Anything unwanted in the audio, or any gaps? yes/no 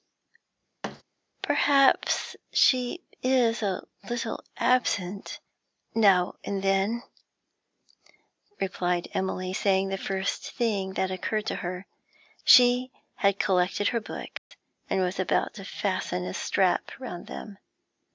yes